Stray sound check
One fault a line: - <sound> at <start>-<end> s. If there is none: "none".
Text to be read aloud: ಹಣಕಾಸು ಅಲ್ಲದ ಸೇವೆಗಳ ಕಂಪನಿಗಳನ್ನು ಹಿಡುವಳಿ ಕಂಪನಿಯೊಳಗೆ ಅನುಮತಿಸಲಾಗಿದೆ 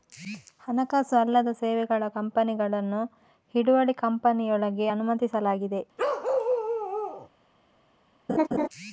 - bark at 6.0-7.3 s
- laugh at 8.3-8.7 s